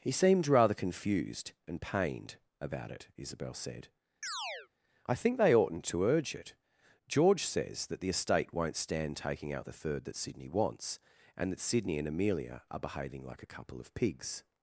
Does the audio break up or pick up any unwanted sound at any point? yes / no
yes